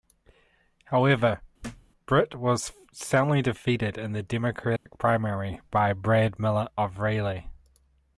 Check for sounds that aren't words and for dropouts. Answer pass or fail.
fail